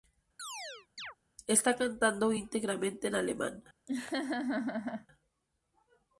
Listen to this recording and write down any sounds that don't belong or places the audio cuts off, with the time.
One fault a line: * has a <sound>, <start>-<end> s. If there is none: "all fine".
* has a chirp, 0.4-1.2 s
* has a laugh, 3.9-5.1 s